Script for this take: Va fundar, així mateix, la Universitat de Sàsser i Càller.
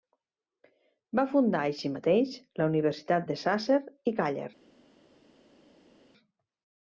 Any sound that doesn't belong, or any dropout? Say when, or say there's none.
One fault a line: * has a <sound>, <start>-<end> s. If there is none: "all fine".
all fine